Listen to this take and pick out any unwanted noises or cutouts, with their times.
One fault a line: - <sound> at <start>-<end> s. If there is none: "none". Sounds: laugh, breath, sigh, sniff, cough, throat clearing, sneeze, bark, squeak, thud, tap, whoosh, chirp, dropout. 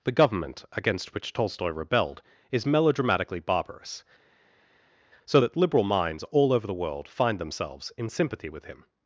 none